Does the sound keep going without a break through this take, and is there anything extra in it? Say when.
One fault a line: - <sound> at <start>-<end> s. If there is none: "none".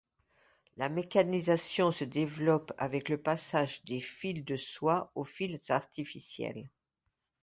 none